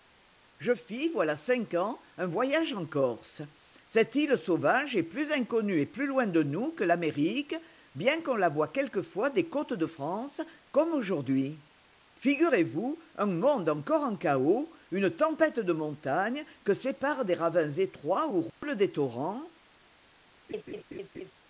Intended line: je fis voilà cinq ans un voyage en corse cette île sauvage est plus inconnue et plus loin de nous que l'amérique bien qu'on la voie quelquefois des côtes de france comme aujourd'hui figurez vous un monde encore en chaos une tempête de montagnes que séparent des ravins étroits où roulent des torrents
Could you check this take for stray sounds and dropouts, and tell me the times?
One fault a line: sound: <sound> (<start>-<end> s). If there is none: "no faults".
sound: dropout (18.5-18.6 s)
sound: laugh (20.5-21.3 s)